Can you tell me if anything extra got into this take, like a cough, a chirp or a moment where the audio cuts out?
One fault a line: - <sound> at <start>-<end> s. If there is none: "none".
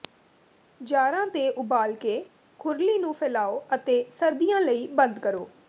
none